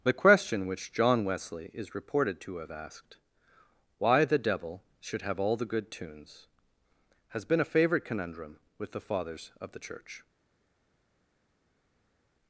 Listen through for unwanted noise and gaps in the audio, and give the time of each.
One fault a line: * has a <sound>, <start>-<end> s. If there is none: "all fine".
all fine